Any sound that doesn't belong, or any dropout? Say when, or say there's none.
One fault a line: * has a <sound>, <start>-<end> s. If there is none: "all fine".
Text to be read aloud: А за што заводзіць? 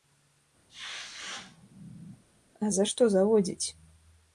* has a sneeze, 0.7-2.2 s